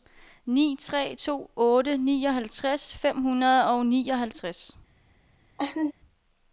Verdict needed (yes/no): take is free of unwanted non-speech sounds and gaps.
no